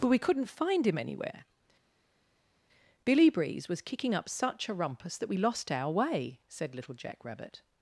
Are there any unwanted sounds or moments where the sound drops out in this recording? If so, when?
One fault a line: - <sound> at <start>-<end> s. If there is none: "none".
none